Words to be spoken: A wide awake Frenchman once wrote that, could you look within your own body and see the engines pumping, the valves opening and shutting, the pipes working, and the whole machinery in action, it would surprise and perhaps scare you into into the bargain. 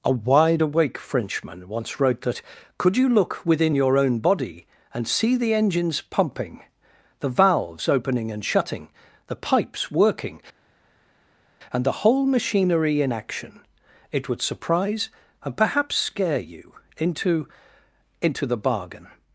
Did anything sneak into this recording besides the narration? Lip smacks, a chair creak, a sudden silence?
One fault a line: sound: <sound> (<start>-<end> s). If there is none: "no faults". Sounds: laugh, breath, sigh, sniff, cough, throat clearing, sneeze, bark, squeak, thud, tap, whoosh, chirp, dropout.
no faults